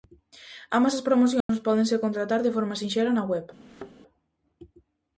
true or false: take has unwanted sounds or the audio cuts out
true